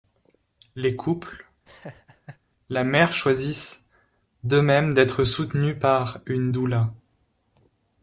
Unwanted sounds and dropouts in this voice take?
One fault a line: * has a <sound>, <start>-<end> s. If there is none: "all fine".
* has a laugh, 1.7-2.4 s